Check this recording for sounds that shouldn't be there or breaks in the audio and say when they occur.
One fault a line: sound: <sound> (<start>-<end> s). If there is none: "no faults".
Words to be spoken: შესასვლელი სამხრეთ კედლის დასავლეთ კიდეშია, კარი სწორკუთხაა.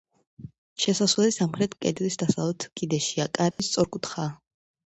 sound: dropout (3.5-3.6 s)